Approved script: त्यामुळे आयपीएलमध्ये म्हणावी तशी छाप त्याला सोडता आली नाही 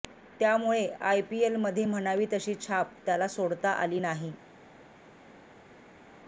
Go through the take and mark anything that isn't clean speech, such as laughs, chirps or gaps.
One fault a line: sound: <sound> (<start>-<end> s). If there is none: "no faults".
no faults